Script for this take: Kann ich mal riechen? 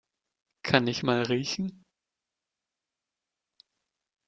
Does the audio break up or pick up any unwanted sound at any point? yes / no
no